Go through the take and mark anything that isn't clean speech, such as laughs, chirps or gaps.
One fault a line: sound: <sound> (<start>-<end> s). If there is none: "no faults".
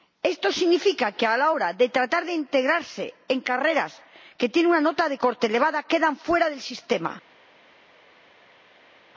no faults